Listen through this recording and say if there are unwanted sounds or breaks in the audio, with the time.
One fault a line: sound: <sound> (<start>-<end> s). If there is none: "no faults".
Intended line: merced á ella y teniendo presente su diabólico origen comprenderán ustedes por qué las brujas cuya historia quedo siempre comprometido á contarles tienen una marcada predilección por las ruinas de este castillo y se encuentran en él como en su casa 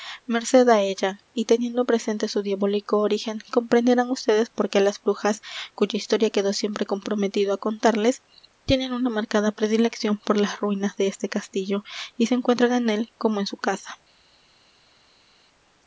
no faults